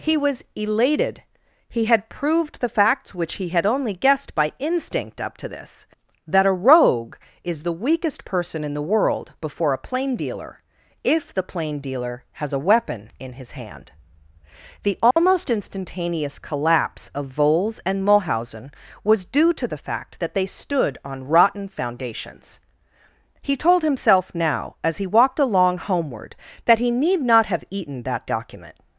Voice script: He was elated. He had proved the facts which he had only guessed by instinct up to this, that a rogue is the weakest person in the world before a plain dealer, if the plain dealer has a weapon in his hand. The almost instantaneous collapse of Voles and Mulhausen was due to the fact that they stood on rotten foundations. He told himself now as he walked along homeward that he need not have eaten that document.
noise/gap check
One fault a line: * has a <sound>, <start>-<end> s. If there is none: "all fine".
* has a dropout, 15.1-15.2 s